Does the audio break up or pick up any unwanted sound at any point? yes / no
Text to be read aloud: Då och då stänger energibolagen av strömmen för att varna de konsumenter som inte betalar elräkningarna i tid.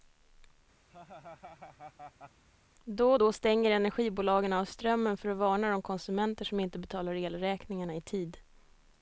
yes